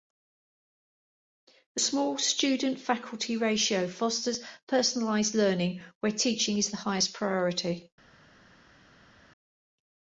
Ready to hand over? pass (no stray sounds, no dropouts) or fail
pass